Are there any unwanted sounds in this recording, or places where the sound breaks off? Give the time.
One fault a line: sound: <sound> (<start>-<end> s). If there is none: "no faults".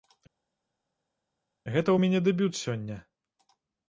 no faults